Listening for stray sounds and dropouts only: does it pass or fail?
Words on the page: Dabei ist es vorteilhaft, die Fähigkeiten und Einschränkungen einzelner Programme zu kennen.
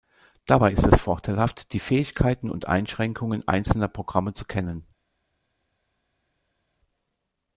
pass